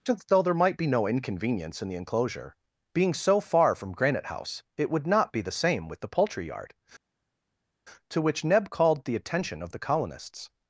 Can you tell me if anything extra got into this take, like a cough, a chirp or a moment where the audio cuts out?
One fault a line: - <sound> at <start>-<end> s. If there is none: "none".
none